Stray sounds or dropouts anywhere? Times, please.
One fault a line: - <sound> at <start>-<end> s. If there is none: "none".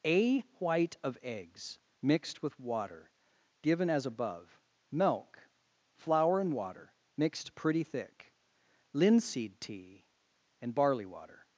none